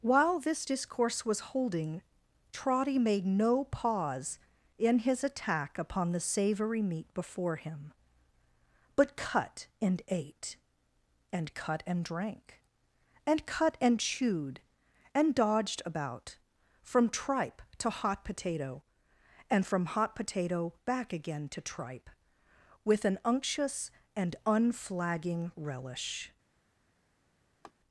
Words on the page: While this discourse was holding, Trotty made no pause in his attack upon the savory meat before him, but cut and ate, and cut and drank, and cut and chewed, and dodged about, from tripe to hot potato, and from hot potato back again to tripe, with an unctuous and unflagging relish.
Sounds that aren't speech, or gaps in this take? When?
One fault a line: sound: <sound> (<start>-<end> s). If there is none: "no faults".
sound: laugh (27.6-27.7 s)